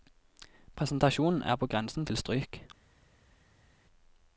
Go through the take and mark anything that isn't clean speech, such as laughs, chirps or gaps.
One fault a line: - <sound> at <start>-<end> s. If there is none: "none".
none